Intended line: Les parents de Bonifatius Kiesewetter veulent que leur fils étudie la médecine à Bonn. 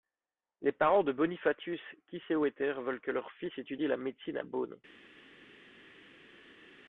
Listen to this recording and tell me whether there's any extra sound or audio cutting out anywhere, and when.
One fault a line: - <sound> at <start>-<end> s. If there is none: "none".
none